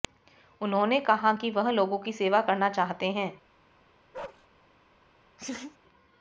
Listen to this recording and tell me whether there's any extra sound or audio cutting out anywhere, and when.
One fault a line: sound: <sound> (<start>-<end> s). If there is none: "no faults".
sound: bark (4.1-4.5 s)
sound: laugh (5.4-5.8 s)